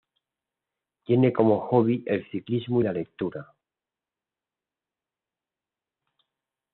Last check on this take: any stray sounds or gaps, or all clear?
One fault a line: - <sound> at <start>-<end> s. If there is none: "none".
none